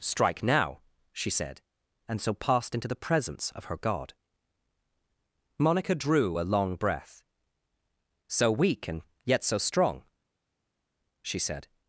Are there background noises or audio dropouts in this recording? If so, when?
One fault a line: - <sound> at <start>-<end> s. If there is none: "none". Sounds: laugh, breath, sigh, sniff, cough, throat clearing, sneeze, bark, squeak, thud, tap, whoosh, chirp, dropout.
none